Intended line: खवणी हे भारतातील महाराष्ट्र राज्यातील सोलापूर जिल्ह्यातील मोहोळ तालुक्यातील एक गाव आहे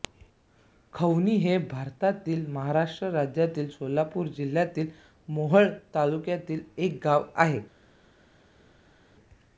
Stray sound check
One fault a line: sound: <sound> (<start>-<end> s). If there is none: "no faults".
no faults